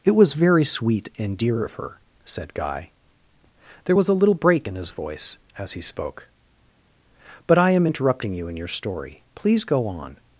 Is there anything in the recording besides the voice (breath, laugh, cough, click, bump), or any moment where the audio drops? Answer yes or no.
no